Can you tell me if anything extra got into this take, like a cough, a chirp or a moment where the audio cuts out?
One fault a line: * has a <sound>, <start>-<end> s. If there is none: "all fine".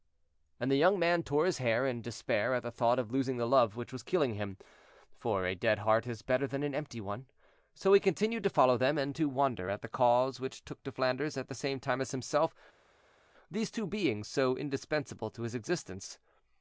all fine